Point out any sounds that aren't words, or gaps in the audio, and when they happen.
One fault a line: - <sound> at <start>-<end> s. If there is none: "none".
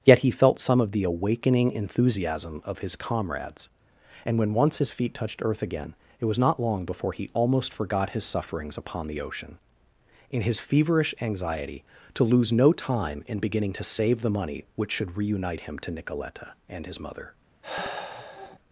- sigh at 17.6-18.6 s